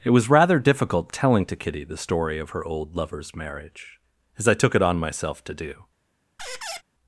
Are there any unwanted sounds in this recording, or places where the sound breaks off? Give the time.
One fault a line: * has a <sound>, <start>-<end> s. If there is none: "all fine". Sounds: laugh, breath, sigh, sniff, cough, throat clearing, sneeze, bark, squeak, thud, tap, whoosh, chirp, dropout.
* has a squeak, 6.4-6.8 s